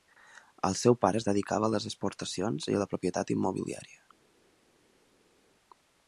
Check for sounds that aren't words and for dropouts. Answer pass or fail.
pass